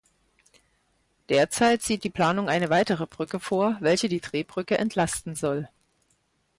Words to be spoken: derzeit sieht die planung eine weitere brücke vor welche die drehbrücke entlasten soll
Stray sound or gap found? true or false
false